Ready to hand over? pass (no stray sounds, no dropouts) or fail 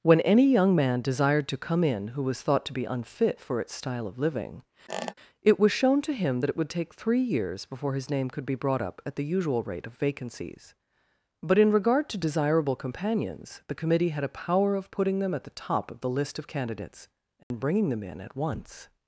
fail